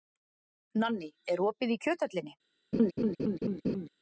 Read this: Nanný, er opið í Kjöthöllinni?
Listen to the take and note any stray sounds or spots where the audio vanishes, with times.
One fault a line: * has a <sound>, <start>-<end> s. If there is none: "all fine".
* has a laugh, 2.7-3.9 s